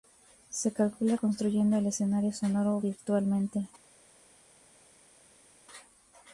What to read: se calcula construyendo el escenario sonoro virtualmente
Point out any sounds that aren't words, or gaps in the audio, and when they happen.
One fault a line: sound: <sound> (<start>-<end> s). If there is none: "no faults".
no faults